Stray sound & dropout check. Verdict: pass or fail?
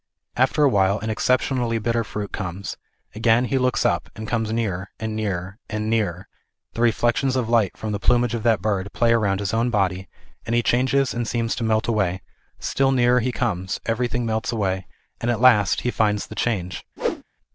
fail